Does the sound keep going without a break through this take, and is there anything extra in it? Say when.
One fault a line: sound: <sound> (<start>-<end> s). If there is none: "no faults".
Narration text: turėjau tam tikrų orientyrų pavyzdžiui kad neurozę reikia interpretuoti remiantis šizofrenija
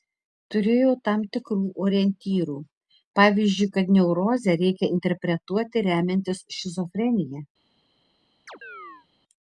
sound: chirp (8.5-9.1 s)